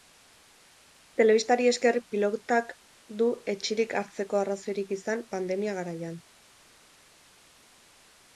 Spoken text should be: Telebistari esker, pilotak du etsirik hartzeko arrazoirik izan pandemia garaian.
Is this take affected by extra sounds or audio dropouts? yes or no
no